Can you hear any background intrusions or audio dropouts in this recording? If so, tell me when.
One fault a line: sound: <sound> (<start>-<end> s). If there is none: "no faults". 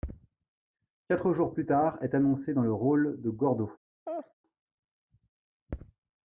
sound: laugh (4.1-4.3 s)